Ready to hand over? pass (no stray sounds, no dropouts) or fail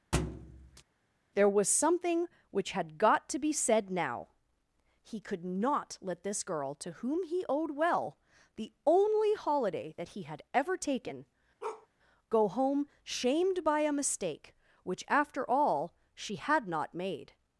fail